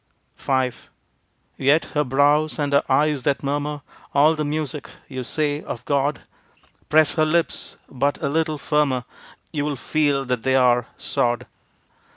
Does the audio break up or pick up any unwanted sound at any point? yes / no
no